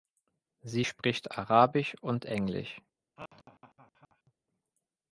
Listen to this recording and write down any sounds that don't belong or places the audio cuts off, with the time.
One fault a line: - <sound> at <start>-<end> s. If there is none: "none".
- laugh at 3.2-4.3 s